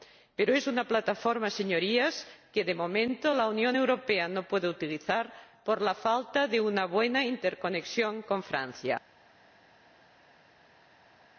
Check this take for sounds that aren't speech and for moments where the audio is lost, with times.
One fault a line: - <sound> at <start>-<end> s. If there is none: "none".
none